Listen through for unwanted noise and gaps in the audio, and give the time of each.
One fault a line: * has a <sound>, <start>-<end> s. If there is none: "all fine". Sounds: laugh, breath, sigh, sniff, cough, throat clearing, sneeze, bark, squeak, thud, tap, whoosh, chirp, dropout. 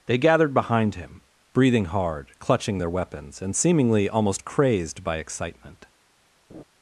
* has a laugh, 6.5-6.6 s